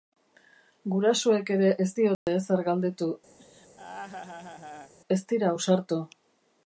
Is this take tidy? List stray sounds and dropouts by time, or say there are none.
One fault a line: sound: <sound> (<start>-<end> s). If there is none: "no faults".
sound: dropout (2.1-2.3 s)
sound: laugh (3.4-4.9 s)